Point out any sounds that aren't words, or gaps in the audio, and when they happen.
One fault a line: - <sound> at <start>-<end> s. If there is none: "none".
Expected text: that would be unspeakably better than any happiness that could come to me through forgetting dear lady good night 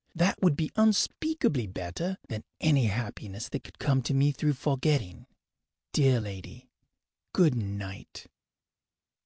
none